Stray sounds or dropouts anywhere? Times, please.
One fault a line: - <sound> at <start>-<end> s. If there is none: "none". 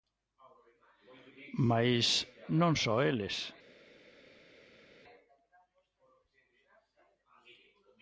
none